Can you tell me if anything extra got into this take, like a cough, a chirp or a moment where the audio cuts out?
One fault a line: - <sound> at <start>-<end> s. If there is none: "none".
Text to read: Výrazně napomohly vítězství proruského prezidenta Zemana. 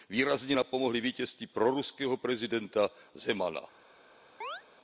- chirp at 4.4-4.6 s